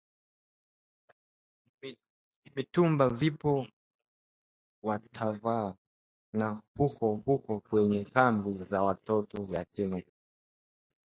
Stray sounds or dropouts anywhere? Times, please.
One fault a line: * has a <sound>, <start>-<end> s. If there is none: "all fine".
all fine